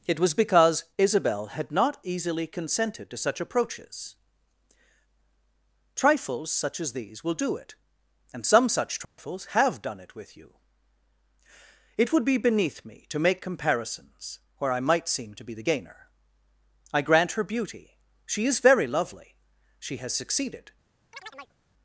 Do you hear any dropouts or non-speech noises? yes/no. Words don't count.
yes